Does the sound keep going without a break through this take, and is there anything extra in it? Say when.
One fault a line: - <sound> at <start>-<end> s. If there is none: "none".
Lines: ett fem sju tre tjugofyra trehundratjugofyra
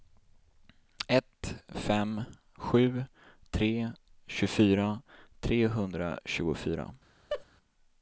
- laugh at 7.3-7.4 s